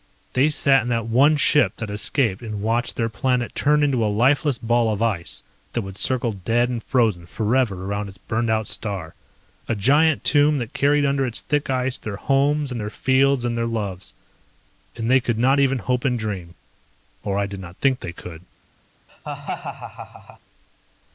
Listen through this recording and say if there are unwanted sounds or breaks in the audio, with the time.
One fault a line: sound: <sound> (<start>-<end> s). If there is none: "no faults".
sound: laugh (19.1-20.4 s)